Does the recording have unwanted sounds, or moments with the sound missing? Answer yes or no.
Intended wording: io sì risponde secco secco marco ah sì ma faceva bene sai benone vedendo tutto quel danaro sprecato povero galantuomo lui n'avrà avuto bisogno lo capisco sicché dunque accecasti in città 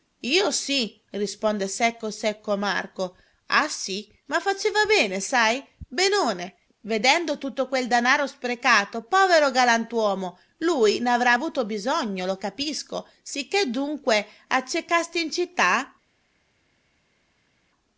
no